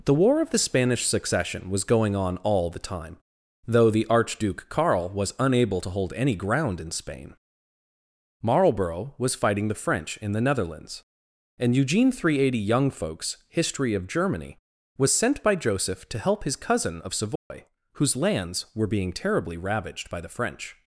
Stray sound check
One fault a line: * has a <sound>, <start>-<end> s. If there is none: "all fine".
* has a dropout, 17.4-17.5 s